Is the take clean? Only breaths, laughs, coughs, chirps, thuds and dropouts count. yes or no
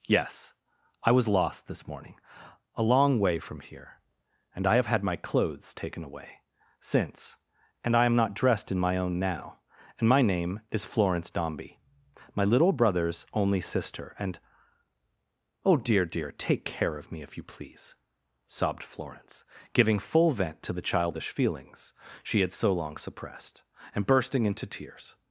yes